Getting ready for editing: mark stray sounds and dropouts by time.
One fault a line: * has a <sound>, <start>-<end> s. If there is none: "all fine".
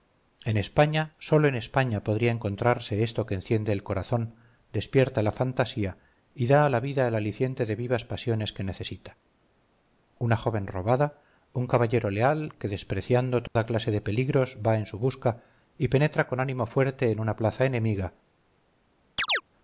* has a dropout, 13.5-13.6 s
* has a chirp, 19.2-19.4 s